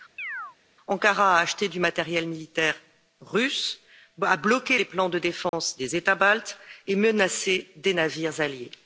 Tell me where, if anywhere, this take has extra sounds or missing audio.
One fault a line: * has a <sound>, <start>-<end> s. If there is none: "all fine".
* has a chirp, 0.2-0.6 s
* has a dropout, 5.5-5.5 s